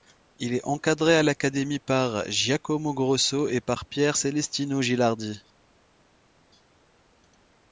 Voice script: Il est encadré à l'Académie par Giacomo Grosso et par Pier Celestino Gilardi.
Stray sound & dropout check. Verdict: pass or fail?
pass